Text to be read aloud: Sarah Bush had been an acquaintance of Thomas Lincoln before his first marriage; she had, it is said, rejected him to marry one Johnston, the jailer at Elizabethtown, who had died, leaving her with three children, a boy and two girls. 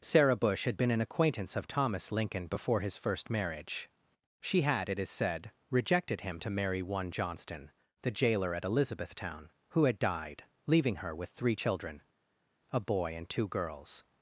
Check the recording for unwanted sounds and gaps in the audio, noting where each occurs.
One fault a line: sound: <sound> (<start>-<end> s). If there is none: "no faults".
no faults